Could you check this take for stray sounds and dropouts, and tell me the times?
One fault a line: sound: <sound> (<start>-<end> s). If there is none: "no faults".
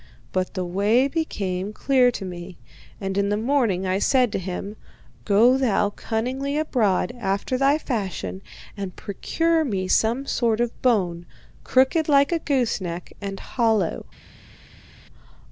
no faults